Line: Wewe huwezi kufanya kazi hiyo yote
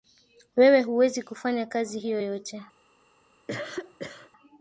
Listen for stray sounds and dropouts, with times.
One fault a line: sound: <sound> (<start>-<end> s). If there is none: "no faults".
sound: cough (3.5-4.3 s)